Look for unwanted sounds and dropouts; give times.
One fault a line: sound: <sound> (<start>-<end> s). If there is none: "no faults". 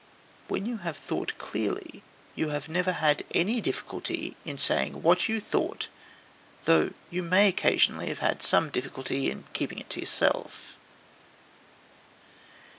no faults